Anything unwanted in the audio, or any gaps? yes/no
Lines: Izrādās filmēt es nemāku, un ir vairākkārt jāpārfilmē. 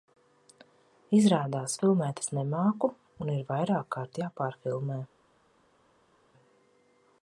no